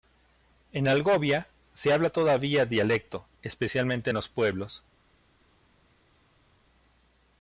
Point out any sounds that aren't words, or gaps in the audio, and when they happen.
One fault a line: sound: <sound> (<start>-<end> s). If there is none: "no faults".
no faults